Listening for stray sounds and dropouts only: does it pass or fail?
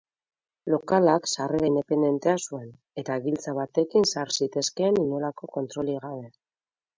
pass